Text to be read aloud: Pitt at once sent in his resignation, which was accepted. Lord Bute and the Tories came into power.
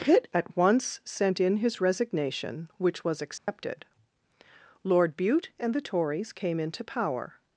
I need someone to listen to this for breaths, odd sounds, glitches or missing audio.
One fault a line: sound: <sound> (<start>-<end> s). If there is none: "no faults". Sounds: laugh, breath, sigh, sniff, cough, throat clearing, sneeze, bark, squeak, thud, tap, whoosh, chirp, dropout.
sound: dropout (3.4-3.5 s)